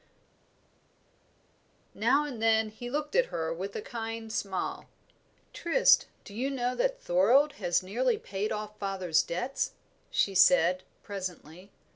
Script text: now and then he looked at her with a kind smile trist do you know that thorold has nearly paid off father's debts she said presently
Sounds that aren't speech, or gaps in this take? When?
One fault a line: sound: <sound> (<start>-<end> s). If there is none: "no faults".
no faults